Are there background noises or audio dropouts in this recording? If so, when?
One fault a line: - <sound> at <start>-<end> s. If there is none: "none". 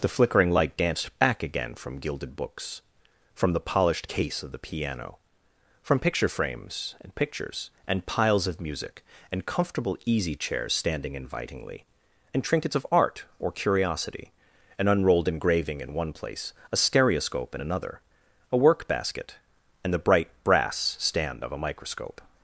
none